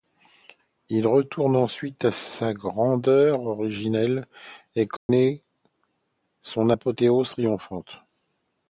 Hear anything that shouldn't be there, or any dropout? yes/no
yes